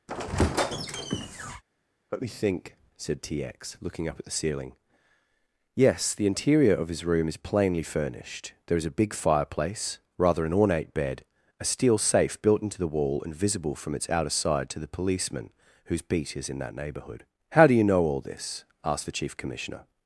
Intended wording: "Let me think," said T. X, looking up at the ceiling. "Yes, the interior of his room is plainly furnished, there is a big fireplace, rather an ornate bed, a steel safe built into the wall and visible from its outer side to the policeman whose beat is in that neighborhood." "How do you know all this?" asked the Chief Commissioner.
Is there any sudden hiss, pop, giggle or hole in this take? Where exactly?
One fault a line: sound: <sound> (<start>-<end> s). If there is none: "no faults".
sound: squeak (0.1-1.6 s)